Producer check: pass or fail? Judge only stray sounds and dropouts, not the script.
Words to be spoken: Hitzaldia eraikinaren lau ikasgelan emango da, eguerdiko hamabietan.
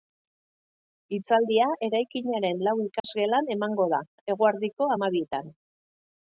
fail